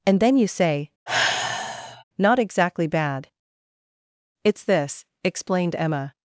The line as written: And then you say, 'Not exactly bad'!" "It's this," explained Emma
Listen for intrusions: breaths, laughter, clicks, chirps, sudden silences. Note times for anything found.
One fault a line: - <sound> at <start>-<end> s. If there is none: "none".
- sigh at 1.1-2.0 s